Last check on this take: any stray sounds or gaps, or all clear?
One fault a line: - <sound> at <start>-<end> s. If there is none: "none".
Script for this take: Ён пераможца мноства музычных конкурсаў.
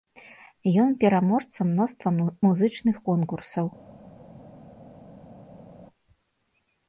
none